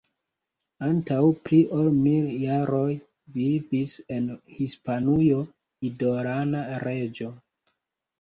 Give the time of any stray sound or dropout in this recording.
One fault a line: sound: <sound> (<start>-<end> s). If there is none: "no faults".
no faults